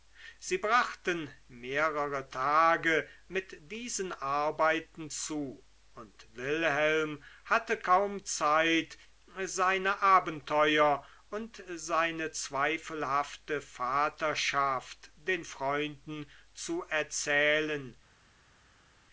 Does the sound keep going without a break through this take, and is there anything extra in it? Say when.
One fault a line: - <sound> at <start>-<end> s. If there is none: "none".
none